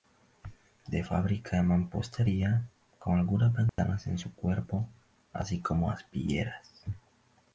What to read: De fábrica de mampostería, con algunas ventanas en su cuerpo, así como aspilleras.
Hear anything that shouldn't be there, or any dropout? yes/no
yes